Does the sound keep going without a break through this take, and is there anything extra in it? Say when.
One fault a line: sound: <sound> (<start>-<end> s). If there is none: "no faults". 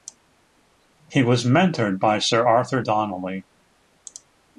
no faults